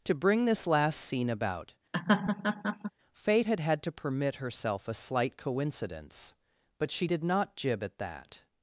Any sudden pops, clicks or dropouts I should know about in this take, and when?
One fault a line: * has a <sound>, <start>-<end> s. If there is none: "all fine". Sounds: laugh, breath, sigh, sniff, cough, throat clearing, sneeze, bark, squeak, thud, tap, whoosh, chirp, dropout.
* has a laugh, 1.9-2.9 s